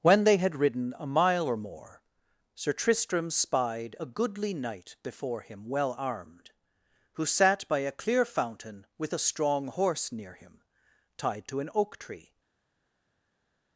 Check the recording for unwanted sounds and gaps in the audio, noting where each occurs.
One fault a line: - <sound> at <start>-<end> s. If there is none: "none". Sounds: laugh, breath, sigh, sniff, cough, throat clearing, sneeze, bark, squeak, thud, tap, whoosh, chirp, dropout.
none